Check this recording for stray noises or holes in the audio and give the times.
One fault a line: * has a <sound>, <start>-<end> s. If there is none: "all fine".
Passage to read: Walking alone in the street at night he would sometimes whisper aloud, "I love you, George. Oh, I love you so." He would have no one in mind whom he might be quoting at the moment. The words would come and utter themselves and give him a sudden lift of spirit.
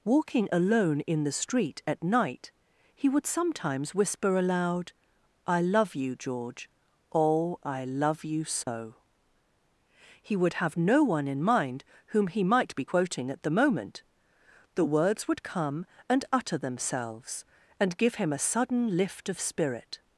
* has a dropout, 8.6-8.7 s